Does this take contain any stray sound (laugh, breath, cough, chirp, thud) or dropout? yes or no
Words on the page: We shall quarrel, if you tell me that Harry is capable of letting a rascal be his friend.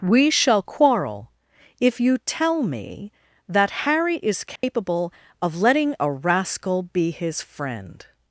yes